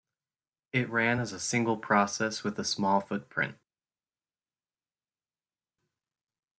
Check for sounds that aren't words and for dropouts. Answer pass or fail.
pass